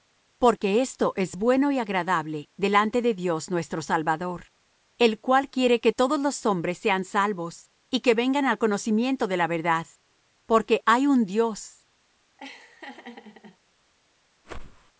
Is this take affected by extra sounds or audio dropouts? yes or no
yes